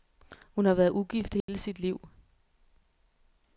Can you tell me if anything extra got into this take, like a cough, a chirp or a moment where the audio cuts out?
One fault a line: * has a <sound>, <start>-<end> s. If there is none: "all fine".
* has a dropout, 1.4-1.5 s